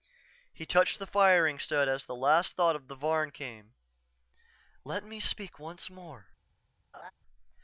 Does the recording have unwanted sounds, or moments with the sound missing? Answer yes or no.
yes